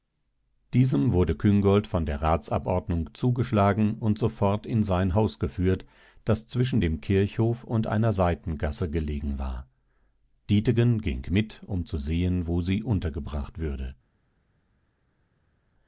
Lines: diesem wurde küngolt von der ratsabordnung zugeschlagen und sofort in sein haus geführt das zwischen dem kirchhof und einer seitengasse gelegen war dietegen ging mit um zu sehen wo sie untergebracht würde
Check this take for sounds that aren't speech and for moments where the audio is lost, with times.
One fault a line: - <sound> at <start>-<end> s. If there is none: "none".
none